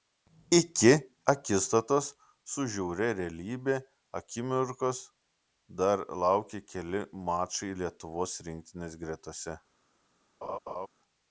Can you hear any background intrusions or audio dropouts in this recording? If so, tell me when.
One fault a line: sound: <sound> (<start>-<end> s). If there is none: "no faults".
sound: laugh (10.4-10.9 s)